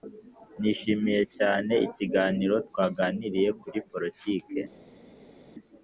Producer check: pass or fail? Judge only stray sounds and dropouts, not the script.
pass